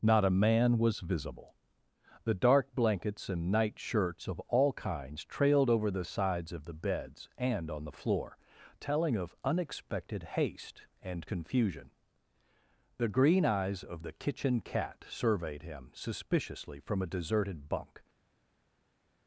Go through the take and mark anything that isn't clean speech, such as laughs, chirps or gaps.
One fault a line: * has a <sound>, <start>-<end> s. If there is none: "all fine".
all fine